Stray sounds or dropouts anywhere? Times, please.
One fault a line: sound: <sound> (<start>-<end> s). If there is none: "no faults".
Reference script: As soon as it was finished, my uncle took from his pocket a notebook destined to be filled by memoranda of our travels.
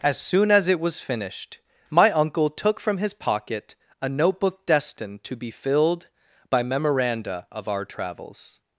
no faults